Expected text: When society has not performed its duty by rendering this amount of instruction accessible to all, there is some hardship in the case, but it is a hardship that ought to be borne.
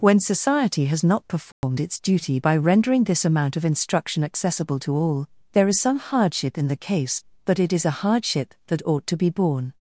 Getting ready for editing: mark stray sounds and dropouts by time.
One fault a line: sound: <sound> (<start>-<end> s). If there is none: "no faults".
sound: dropout (1.5-1.6 s)